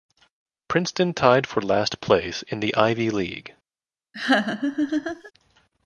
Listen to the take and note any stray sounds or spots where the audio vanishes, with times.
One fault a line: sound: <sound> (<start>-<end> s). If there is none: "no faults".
sound: laugh (4.1-5.3 s)